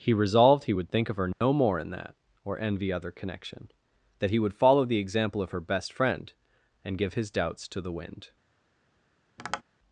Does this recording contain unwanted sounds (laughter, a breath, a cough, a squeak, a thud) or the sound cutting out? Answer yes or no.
yes